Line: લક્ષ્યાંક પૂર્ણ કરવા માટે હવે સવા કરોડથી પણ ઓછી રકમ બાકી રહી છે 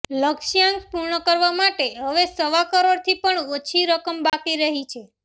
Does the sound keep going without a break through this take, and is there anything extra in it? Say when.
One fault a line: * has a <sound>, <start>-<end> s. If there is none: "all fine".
* has a dropout, 4.3-4.3 s